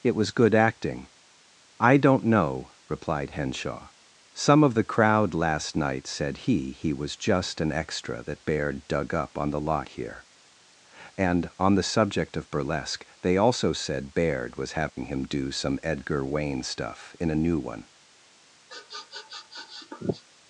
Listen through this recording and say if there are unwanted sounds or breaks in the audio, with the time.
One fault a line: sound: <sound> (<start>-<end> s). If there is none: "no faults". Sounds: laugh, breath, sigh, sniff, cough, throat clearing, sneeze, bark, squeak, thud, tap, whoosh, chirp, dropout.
sound: dropout (14.9-15.0 s)
sound: sniff (18.7-20.2 s)